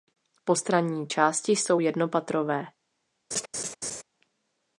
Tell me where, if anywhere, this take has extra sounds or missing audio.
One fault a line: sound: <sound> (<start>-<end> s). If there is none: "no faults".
sound: laugh (3.3-4.0 s)